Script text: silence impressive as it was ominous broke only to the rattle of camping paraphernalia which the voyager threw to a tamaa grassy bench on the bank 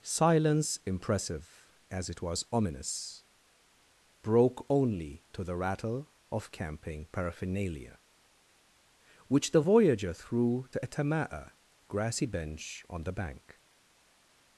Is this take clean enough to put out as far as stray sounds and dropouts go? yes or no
yes